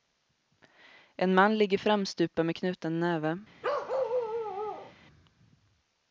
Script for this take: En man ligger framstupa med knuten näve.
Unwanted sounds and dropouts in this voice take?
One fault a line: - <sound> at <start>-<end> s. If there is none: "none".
- bark at 3.6-4.9 s